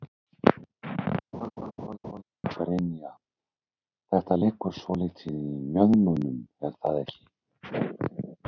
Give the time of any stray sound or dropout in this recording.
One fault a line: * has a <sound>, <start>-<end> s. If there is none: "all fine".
* has a laugh, 1.3-2.2 s